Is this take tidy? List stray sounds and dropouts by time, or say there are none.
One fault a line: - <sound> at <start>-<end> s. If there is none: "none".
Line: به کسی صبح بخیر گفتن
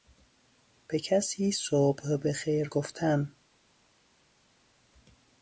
none